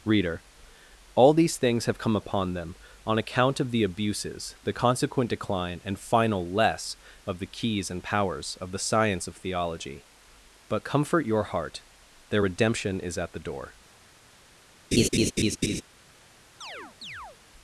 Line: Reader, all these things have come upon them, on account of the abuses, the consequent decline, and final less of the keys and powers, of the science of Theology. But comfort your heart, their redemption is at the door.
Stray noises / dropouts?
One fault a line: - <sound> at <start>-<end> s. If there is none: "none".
- laugh at 14.9-15.8 s
- chirp at 16.6-17.4 s